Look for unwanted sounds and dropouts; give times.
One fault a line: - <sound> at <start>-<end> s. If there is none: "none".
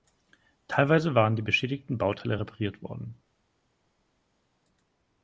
none